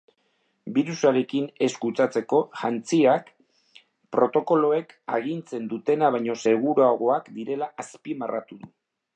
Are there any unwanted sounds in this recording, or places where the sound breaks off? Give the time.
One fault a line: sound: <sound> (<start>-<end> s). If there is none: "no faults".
no faults